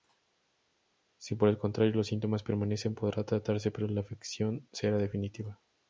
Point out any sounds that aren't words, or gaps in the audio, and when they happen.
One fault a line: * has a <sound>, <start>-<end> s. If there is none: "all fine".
all fine